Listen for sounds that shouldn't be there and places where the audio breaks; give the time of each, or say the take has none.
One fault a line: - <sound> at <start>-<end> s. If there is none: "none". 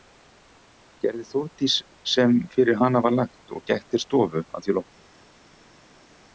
none